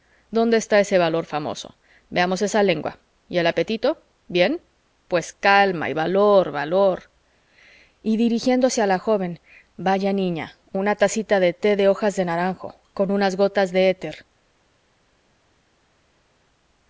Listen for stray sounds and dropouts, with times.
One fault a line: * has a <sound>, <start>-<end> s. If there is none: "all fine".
all fine